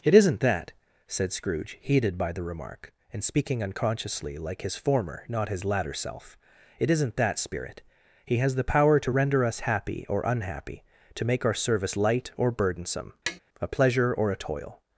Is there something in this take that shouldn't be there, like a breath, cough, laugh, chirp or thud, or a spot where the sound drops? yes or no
yes